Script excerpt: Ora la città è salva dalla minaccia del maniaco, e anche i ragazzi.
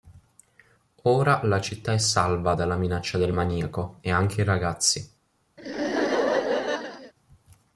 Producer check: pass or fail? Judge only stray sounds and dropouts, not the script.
fail